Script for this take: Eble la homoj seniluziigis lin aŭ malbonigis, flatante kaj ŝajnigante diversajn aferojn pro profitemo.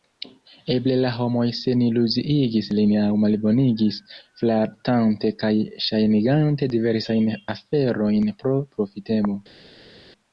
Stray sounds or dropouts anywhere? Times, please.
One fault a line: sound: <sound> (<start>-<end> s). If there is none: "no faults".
no faults